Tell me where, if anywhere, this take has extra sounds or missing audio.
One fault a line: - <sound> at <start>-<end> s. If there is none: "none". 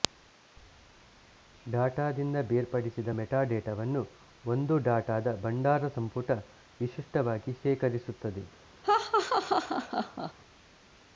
- laugh at 8.8-10.3 s